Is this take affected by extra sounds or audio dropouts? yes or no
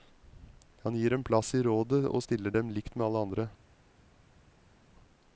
no